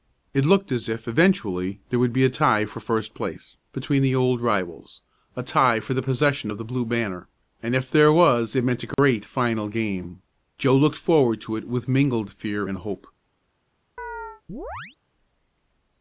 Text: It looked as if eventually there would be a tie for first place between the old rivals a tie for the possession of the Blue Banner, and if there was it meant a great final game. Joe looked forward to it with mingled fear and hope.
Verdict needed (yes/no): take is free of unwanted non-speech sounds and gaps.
no